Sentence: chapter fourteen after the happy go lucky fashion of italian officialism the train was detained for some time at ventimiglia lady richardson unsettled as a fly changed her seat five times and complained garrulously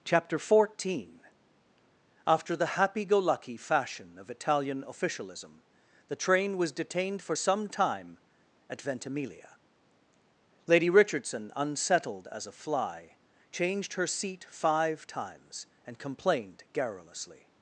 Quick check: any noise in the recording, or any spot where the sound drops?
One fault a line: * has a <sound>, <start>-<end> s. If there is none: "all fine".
all fine